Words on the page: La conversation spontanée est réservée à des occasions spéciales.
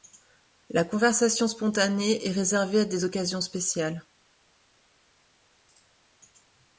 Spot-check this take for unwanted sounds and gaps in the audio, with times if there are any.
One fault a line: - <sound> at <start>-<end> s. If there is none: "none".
none